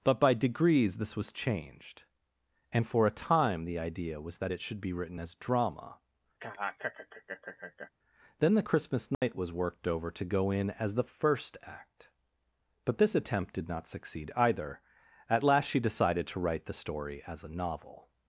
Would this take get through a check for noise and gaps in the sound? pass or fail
fail